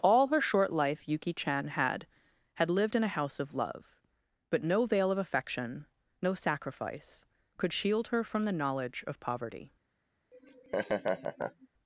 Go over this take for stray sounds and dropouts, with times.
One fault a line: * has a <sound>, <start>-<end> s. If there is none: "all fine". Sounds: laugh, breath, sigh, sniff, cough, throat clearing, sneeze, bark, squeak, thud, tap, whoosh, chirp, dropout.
* has a laugh, 10.3-11.7 s